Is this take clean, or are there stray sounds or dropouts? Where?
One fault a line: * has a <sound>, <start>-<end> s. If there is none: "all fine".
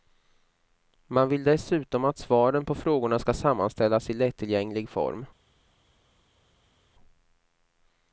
all fine